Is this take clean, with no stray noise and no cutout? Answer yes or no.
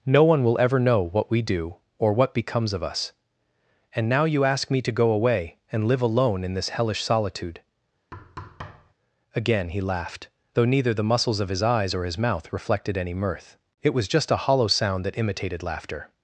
no